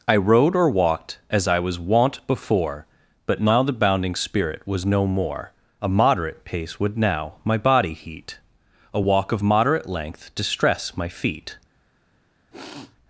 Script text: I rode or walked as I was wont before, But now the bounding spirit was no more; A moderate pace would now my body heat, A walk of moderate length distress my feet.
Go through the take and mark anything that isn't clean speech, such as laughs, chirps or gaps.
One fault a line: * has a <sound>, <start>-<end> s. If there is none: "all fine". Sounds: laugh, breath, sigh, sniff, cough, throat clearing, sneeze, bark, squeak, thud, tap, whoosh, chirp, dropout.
* has a sniff, 12.5-13.0 s